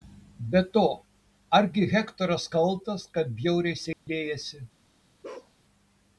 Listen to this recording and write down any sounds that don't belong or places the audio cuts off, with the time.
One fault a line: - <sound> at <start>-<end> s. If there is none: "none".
- dropout at 3.9-4.1 s
- bark at 5.2-5.5 s